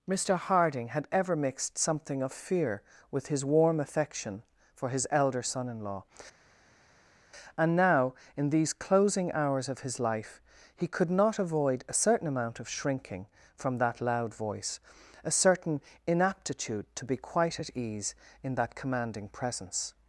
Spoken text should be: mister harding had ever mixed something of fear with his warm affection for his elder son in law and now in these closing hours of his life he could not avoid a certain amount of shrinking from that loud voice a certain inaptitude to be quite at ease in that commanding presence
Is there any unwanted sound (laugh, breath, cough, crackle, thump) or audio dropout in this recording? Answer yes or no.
no